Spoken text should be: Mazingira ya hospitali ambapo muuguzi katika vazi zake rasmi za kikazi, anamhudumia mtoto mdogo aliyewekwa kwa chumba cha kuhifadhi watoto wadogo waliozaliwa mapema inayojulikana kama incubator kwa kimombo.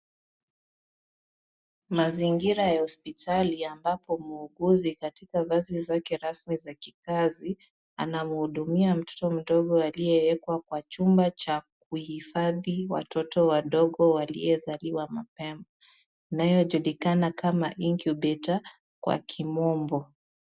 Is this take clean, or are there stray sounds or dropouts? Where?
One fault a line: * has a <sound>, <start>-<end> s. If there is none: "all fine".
all fine